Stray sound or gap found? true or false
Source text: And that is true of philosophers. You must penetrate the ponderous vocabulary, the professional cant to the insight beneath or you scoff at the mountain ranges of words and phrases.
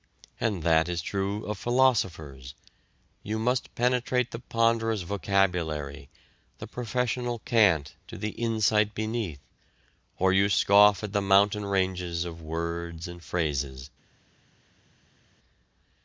false